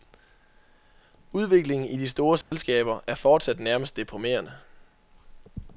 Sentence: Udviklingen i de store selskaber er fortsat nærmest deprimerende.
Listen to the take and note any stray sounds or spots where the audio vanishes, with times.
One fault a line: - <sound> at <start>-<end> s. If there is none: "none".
- dropout at 2.4-2.5 s